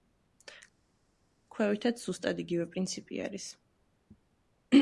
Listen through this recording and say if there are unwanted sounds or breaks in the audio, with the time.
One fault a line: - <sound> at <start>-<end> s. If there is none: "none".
none